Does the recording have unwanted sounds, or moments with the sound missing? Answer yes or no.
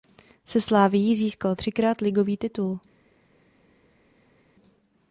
no